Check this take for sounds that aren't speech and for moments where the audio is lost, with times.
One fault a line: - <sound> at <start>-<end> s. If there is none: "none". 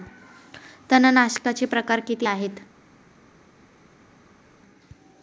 none